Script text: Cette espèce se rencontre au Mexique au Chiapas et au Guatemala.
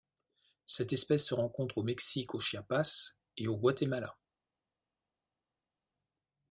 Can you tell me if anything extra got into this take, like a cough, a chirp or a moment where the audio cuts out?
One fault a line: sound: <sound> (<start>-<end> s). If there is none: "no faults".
no faults